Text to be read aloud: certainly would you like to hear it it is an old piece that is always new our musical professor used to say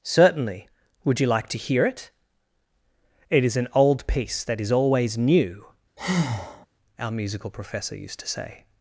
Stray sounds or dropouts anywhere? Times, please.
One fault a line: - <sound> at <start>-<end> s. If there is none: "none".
- breath at 6.0-6.7 s